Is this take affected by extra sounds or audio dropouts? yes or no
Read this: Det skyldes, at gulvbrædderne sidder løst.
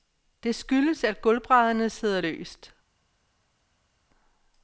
no